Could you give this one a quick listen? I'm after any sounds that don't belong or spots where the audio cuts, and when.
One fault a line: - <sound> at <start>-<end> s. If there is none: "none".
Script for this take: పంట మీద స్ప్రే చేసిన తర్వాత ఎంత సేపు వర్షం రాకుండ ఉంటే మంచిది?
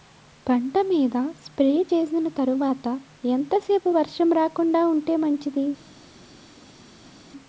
none